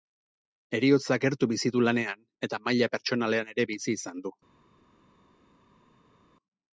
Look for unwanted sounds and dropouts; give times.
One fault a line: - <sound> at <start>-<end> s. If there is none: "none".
none